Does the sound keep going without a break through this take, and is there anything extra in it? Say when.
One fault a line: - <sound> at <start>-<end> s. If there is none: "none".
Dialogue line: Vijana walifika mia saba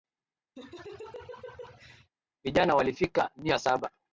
- laugh at 0.6-2.1 s